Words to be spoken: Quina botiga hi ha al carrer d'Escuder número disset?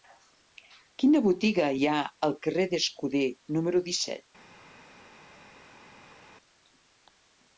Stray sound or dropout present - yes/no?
no